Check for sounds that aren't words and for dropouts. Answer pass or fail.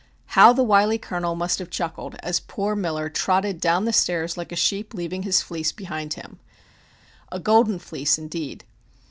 pass